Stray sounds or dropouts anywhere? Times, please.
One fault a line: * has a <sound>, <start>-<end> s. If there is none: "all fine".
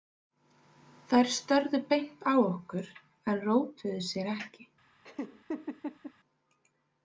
* has a laugh, 5.0-6.1 s